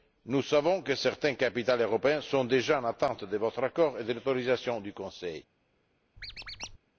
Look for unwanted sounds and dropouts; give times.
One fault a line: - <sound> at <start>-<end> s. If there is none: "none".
- squeak at 6.2-6.8 s